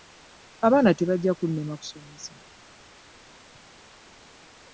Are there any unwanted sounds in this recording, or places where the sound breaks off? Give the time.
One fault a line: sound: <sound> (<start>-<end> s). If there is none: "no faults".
no faults